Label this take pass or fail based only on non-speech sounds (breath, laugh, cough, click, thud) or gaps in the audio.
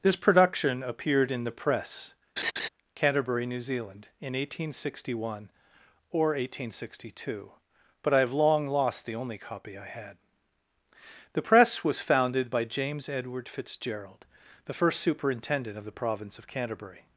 fail